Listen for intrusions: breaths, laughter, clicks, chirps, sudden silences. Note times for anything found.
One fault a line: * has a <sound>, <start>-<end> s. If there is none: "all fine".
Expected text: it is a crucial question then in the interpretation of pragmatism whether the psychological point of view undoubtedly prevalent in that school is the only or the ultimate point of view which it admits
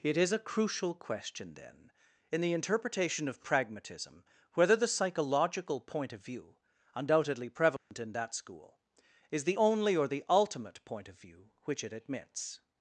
* has a dropout, 7.8-7.9 s